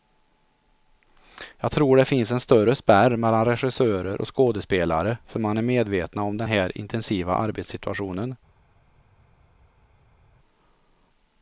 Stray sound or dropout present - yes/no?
no